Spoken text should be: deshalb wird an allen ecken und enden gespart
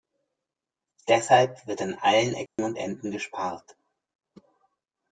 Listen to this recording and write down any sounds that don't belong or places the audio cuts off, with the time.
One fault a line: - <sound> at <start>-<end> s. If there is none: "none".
- dropout at 2.5-2.6 s